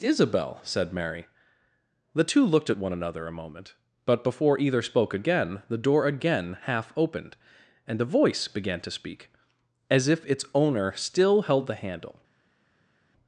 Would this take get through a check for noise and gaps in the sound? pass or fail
pass